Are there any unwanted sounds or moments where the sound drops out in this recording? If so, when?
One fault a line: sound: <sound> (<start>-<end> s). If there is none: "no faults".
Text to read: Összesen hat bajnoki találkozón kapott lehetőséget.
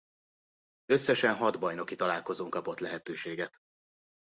no faults